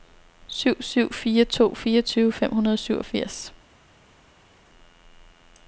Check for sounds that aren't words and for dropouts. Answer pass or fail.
pass